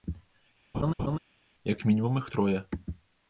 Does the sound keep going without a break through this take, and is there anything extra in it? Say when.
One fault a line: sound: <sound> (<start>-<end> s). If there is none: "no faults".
sound: laugh (0.7-1.2 s)